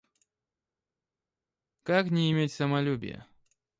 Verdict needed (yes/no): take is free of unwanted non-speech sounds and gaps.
yes